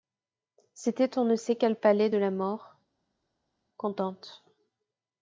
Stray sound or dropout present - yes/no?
no